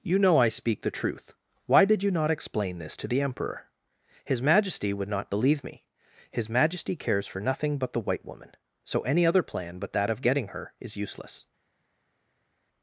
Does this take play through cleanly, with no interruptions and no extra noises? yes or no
yes